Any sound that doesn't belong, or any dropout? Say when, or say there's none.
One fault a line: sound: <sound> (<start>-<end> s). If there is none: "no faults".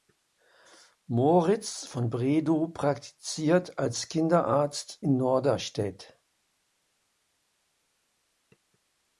no faults